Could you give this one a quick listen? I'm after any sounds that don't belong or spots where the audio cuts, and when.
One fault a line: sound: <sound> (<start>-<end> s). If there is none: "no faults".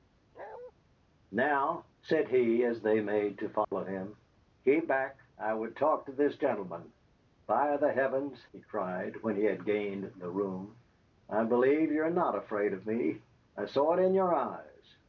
sound: bark (0.3-0.7 s)
sound: dropout (3.6-3.7 s)